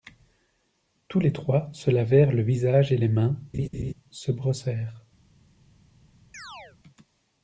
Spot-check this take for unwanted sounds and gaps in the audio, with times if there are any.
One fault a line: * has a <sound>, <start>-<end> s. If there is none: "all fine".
* has a laugh, 3.5-3.9 s
* has a chirp, 6.3-6.8 s